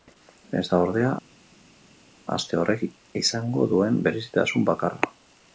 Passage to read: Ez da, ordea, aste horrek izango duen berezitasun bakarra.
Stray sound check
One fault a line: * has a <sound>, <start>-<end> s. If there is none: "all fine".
all fine